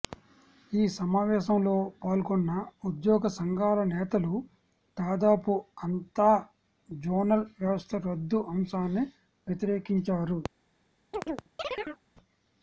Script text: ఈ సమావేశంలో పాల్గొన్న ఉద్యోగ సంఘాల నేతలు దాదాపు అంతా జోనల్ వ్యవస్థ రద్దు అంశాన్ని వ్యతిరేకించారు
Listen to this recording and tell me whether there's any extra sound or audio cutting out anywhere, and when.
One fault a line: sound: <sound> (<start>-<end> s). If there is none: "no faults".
sound: chirp (11.1-12.0 s)